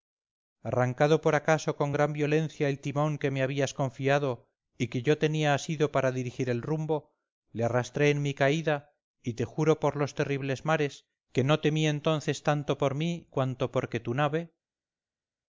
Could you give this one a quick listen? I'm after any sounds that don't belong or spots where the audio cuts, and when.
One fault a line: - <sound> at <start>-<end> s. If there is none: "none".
none